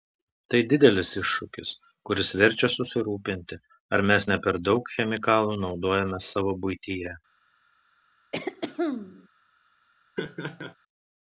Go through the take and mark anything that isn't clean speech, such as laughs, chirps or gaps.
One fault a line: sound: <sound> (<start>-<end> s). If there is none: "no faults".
sound: throat clearing (8.3-9.3 s)
sound: laugh (10.2-10.8 s)